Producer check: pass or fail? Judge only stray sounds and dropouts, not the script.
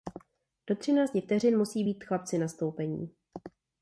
pass